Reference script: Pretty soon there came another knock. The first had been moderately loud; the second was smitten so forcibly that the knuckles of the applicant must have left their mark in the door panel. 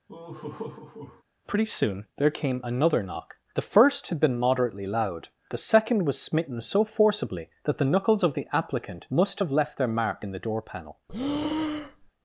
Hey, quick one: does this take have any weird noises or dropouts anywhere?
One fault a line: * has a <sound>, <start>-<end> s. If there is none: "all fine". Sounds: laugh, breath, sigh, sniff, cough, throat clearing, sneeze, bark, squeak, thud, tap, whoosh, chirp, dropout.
* has a laugh, 0.1-1.2 s
* has a breath, 11.1-12.1 s